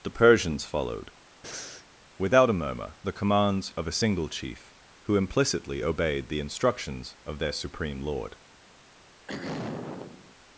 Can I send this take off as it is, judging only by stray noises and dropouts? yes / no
no